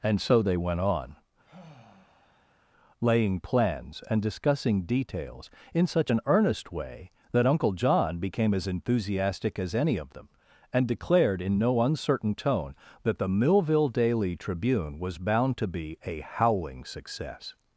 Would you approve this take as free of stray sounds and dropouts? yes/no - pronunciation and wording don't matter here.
no